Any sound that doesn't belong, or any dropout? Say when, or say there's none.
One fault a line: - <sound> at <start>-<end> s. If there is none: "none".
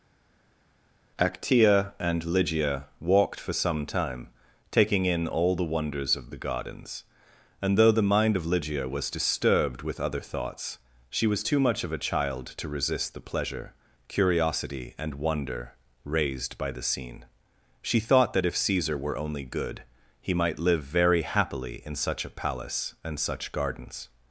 none